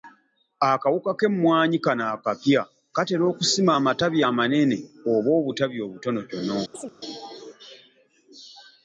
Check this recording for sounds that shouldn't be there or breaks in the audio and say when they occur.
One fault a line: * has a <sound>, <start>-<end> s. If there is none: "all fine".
* has a chirp, 6.7-6.9 s